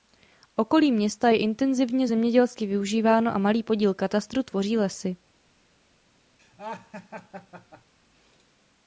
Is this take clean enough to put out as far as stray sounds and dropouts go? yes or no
no